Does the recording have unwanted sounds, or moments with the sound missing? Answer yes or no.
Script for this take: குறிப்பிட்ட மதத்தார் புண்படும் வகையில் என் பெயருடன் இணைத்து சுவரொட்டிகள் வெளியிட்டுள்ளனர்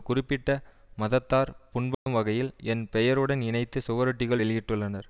yes